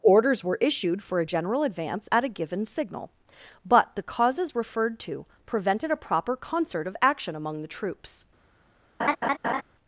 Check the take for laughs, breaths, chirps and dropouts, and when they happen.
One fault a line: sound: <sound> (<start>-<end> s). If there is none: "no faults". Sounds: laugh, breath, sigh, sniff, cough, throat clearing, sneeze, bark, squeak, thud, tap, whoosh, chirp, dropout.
sound: laugh (9.0-9.6 s)